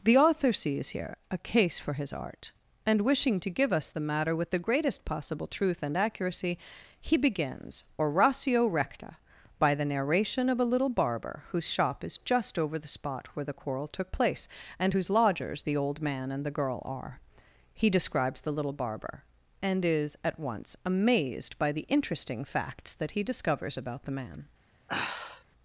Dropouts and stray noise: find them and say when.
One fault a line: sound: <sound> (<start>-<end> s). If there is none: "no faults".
sound: sigh (24.9-25.4 s)